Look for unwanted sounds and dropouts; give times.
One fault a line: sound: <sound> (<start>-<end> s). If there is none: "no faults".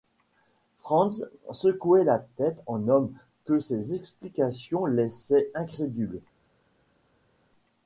no faults